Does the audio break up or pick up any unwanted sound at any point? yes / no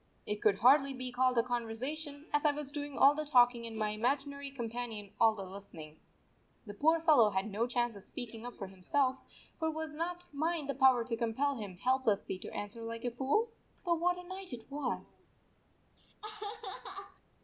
yes